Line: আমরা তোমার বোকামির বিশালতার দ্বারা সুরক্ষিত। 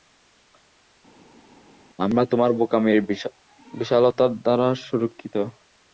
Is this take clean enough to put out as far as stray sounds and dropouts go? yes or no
yes